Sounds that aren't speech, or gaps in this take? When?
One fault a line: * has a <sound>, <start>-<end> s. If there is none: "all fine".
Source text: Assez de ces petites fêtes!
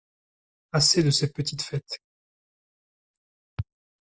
all fine